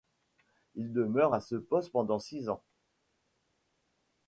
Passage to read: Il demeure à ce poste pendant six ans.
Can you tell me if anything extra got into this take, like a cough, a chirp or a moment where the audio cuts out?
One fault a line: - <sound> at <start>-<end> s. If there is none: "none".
none